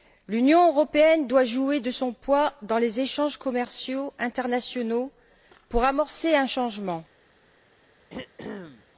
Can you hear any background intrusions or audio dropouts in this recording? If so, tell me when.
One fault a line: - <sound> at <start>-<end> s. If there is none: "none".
- throat clearing at 8.1-8.9 s